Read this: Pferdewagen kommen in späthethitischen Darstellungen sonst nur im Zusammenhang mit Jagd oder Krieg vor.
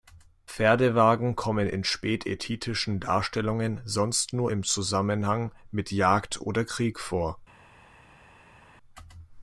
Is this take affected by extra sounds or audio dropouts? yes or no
no